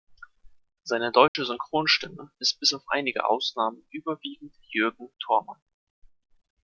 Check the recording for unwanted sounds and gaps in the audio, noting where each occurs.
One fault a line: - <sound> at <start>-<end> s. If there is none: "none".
- dropout at 1.3-1.4 s